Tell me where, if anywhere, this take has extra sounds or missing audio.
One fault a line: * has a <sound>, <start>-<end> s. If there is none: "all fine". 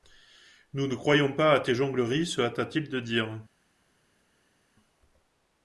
all fine